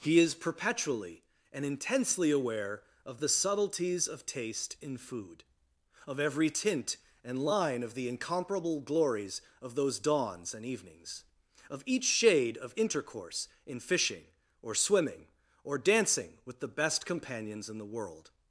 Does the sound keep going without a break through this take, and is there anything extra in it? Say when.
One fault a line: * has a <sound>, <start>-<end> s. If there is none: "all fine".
all fine